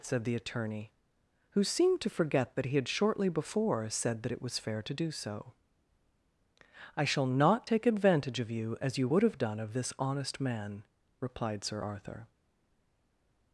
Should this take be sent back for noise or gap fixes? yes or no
no